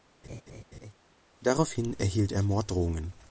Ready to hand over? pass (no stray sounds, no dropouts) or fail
fail